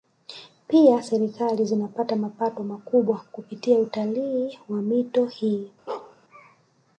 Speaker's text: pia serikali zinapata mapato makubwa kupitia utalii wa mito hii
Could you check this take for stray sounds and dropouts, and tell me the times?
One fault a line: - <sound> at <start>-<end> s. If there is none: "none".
- bark at 5.9-6.2 s